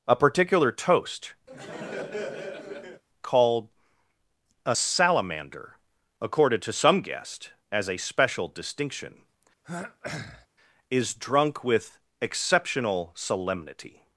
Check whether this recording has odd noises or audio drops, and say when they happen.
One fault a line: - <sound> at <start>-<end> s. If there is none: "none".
- laugh at 1.5-3.0 s
- throat clearing at 9.6-10.5 s